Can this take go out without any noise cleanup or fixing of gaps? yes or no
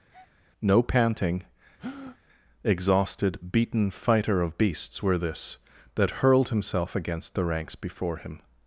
no